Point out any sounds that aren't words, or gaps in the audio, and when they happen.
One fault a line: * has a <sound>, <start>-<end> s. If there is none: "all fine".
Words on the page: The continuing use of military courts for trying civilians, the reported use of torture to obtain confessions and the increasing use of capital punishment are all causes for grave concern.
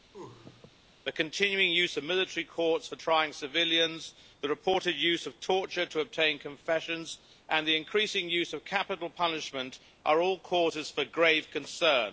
* has a sneeze, 0.1-0.8 s